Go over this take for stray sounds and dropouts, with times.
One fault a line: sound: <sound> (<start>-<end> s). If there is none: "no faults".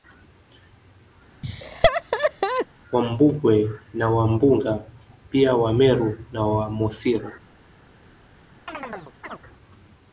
sound: laugh (1.4-2.7 s)
sound: chirp (8.7-9.4 s)